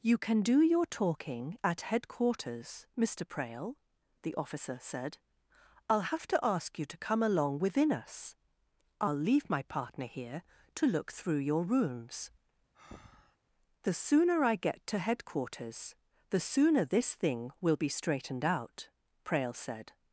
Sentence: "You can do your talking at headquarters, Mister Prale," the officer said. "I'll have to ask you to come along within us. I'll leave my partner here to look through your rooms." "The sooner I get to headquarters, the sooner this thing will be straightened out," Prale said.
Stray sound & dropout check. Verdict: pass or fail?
fail